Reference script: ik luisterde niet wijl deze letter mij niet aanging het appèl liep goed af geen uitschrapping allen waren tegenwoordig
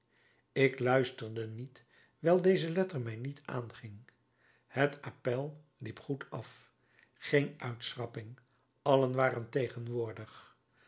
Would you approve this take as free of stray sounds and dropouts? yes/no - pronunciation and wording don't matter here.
yes